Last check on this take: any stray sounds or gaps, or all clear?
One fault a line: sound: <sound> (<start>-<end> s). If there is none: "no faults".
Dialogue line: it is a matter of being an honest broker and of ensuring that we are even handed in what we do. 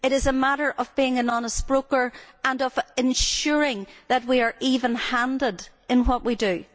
no faults